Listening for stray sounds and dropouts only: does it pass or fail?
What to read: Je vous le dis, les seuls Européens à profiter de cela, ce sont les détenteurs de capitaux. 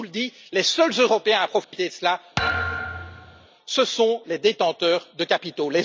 fail